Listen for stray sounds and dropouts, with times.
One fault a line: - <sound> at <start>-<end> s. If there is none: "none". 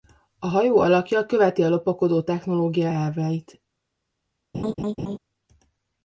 - laugh at 4.5-5.2 s